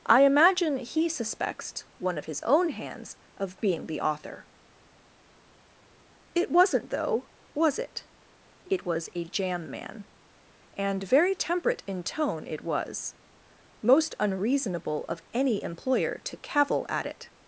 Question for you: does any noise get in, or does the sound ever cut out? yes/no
no